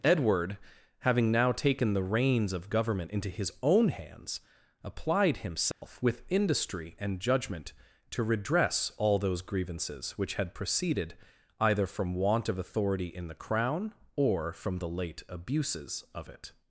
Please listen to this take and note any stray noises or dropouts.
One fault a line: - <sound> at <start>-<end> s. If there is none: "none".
- dropout at 5.7-5.8 s